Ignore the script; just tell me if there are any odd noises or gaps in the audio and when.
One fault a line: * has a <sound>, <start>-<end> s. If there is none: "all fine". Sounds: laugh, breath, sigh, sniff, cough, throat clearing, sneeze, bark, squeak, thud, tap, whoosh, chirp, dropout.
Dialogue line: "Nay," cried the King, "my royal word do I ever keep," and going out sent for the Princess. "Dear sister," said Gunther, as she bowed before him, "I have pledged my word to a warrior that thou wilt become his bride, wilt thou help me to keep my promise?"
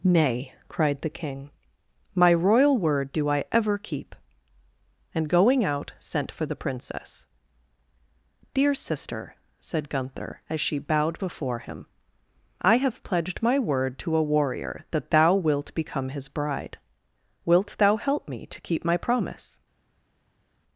all fine